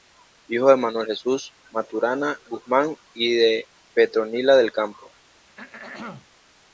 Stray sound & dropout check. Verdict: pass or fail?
fail